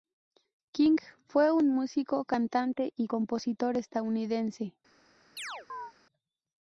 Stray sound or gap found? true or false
true